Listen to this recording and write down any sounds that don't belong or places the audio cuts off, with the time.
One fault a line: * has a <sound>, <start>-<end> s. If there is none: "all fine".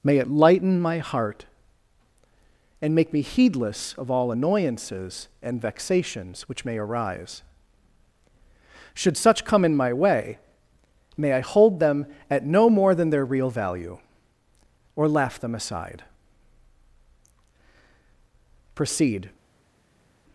all fine